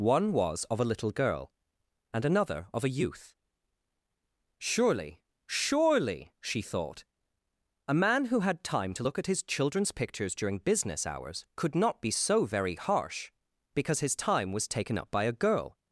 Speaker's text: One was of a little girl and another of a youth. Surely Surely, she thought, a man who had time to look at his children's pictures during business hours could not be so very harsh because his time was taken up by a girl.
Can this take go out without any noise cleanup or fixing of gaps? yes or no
yes